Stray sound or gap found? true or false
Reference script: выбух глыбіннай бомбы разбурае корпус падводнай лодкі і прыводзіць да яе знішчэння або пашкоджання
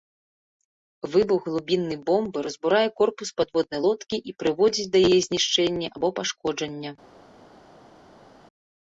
false